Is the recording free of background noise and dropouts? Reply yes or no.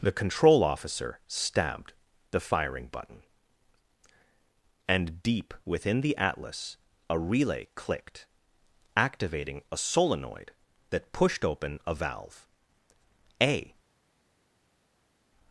yes